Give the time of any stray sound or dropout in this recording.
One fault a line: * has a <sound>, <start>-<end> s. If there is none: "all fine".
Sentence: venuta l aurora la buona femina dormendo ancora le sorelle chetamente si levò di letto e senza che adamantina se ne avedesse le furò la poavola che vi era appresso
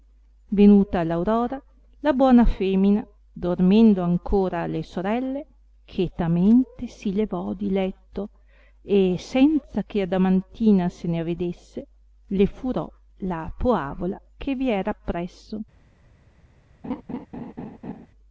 * has a laugh, 16.8-18.1 s